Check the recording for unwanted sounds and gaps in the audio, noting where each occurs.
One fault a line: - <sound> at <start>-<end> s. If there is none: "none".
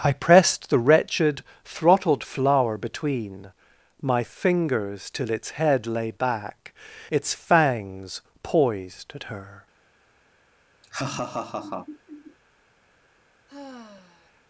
- laugh at 10.8-12.4 s
- sigh at 13.5-14.4 s